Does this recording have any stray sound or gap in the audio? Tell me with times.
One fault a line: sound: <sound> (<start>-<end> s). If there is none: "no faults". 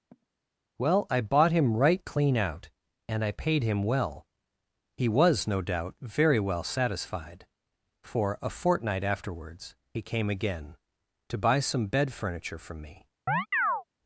sound: sigh (0.1-0.3 s)
sound: chirp (13.3-13.8 s)